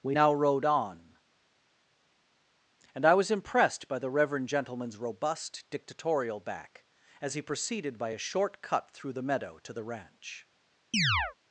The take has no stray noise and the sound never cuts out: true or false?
false